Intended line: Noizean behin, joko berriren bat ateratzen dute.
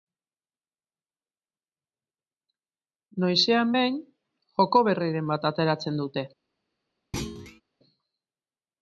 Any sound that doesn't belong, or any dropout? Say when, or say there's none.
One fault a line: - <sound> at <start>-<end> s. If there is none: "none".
- thud at 7.1-7.6 s